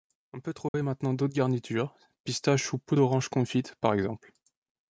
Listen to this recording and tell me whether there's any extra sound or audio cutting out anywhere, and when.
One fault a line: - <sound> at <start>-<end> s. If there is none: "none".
- dropout at 0.7-0.7 s